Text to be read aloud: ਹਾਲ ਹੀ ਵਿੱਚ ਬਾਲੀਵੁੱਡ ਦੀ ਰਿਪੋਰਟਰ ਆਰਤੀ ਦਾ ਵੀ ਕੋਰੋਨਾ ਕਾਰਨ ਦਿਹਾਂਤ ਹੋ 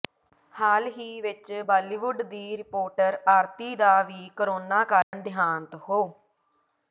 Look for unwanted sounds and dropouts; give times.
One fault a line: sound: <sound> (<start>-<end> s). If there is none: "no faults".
sound: dropout (5.0-5.1 s)